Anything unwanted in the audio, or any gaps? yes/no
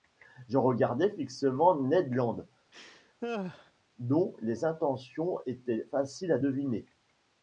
yes